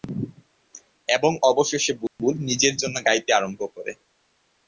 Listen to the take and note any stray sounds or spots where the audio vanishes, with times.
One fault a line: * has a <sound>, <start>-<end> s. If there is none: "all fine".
* has a dropout, 2.1-2.2 s